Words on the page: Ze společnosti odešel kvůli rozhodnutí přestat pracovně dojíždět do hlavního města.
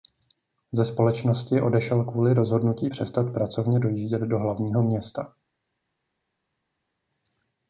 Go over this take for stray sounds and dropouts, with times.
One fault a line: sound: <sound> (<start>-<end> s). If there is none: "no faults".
no faults